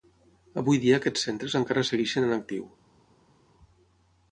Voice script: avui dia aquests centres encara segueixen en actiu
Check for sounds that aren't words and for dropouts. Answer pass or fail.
pass